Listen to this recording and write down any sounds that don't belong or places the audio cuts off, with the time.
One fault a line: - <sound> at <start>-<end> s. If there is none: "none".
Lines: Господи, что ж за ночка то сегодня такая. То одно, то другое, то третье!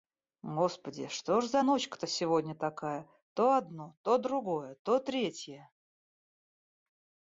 none